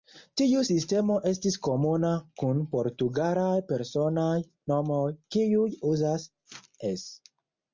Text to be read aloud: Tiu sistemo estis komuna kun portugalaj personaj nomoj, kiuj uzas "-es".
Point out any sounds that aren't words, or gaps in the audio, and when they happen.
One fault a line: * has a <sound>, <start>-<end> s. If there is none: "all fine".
all fine